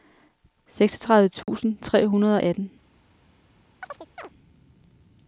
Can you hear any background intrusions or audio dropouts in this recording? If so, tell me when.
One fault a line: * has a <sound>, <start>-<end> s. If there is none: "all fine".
* has a dropout, 1.4-1.5 s
* has a chirp, 3.8-4.3 s